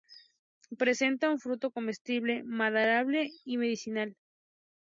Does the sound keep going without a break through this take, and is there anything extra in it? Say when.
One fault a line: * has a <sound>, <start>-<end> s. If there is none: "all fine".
all fine